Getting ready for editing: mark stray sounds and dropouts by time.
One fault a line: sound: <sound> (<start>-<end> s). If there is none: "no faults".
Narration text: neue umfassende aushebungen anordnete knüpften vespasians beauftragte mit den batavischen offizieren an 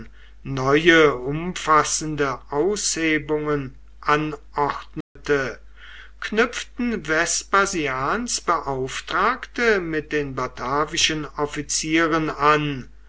sound: dropout (5.0-5.2 s)